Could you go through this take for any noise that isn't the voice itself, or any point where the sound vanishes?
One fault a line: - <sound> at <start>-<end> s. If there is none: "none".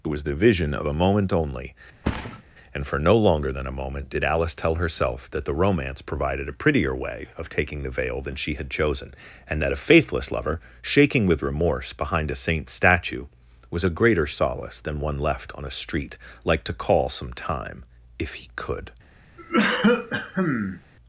- thud at 2.0-2.4 s
- cough at 19.4-20.8 s